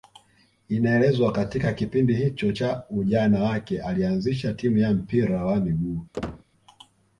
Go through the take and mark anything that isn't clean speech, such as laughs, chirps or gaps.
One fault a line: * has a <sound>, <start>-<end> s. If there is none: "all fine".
* has a squeak, 6.1-6.4 s